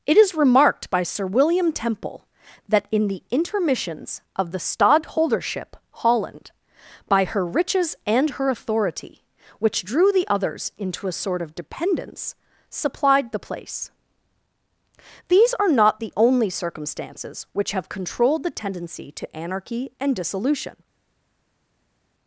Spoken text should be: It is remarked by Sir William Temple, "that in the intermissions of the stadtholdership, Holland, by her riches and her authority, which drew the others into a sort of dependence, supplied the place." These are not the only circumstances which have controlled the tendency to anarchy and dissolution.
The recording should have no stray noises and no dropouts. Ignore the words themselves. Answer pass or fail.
pass